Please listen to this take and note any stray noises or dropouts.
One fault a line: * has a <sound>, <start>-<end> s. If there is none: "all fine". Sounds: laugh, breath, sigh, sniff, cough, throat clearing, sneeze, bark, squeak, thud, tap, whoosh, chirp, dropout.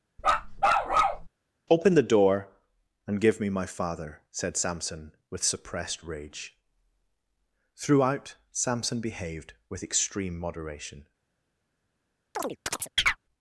* has a bark, 0.2-1.3 s
* has a chirp, 12.3-13.2 s